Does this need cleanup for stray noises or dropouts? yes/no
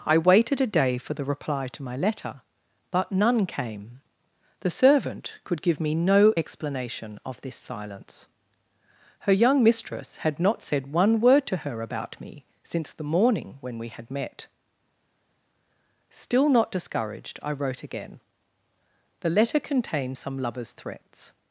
no